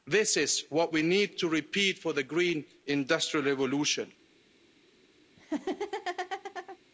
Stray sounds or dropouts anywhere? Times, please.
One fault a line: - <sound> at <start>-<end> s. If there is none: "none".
- laugh at 5.4-6.8 s